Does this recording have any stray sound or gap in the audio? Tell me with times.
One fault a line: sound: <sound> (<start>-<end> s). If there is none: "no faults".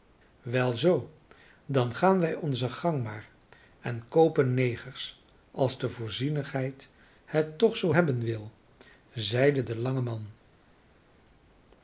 no faults